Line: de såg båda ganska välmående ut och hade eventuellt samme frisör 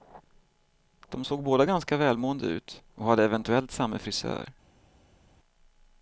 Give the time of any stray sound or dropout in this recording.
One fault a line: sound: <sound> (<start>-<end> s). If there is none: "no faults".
no faults